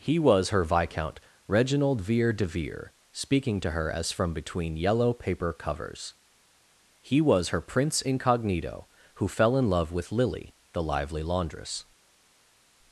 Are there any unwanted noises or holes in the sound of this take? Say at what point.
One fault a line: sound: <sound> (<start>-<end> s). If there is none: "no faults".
no faults